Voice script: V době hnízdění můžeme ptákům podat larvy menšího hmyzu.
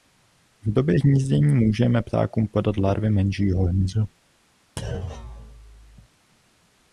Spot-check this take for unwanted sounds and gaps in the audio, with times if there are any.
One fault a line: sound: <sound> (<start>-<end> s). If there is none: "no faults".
sound: thud (4.8-6.1 s)